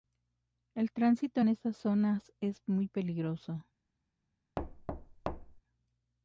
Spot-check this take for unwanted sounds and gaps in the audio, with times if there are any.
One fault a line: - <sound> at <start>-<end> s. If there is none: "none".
- thud at 4.6-5.6 s